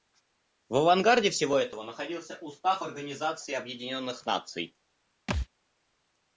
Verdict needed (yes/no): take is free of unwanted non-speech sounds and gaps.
no